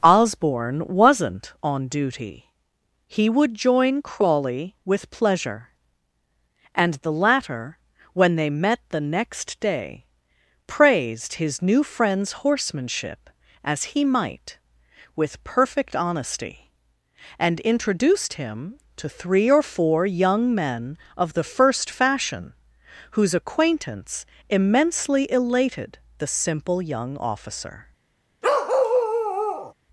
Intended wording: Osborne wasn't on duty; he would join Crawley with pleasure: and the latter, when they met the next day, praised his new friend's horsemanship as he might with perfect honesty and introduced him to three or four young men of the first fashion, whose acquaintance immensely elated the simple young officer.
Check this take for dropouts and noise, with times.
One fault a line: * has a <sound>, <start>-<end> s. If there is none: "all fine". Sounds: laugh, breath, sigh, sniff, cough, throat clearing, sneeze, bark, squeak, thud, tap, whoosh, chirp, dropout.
* has a bark, 28.4-29.7 s